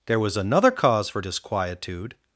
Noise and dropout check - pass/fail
pass